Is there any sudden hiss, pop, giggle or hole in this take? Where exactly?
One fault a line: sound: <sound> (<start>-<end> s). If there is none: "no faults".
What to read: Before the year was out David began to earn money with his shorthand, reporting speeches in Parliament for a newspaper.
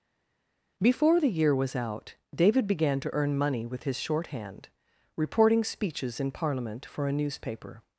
no faults